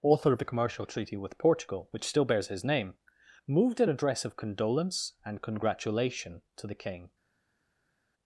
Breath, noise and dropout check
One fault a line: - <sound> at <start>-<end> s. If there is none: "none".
none